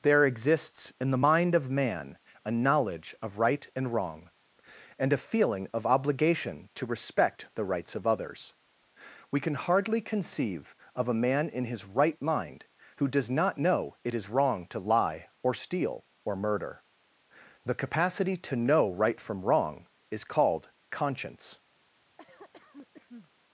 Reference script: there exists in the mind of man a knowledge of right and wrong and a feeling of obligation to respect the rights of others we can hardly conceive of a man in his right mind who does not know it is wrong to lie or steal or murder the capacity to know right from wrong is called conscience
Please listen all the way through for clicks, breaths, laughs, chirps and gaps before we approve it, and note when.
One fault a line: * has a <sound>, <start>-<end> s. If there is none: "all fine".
* has a cough, 22.2-23.3 s